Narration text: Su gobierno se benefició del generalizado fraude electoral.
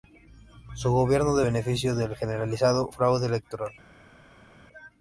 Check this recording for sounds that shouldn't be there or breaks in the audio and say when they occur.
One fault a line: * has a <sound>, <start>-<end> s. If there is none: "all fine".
all fine